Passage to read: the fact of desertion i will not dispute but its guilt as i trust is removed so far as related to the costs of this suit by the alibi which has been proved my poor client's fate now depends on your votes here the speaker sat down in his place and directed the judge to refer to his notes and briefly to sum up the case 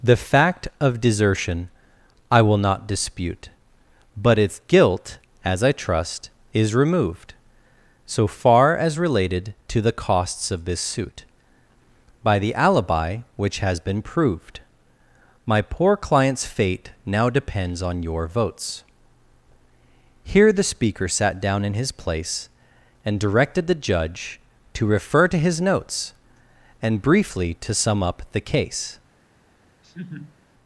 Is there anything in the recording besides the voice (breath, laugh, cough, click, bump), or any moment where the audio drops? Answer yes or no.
yes